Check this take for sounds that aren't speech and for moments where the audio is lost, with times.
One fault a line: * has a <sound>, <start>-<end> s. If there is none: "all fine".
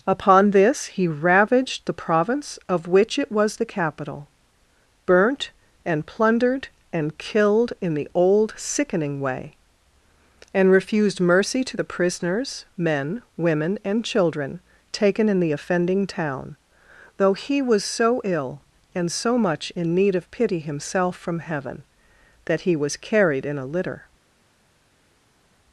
all fine